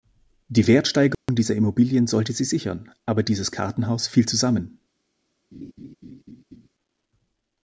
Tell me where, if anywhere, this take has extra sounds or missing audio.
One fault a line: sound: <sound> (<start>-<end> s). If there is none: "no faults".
sound: dropout (1.1-1.3 s)
sound: laugh (5.5-6.7 s)